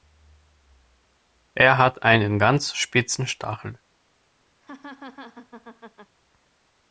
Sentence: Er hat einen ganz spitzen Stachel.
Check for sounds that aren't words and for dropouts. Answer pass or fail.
fail